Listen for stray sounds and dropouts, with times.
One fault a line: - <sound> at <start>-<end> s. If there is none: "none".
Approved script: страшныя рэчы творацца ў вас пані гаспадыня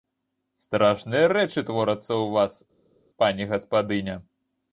none